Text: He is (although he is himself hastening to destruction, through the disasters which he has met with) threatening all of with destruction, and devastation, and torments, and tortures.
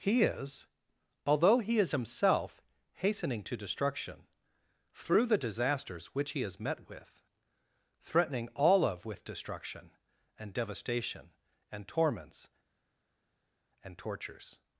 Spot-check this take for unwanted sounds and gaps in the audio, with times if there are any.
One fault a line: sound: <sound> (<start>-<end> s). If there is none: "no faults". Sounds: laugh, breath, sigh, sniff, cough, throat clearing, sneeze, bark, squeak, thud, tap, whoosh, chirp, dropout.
no faults